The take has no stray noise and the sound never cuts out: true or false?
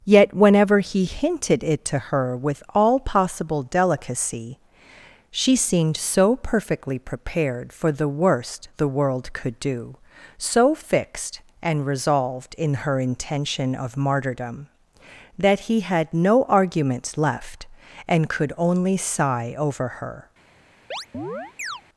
false